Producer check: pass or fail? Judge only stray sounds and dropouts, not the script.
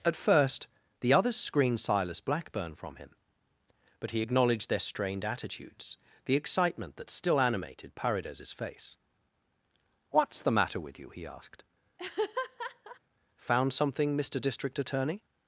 fail